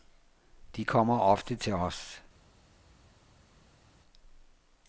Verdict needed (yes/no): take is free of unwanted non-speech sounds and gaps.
yes